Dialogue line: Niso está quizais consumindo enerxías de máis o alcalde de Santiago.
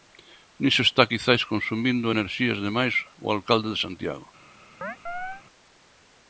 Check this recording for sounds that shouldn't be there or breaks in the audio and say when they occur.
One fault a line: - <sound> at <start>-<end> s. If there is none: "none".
- chirp at 4.8-5.4 s